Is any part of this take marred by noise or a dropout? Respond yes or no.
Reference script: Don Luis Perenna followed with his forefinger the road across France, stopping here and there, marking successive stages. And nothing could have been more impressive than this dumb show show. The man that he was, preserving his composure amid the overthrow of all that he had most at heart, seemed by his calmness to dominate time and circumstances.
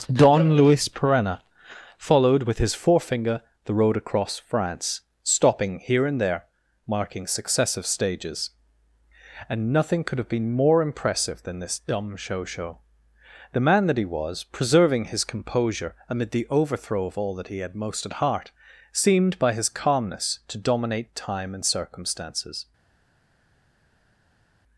no